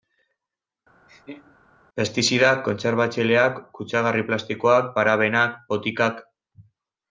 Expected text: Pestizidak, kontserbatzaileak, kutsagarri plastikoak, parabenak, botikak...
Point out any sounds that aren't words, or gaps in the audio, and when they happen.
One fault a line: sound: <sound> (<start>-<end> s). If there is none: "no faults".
sound: laugh (1.1-1.6 s)